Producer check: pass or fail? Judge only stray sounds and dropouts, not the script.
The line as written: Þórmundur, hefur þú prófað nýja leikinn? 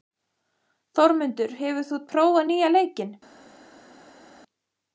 pass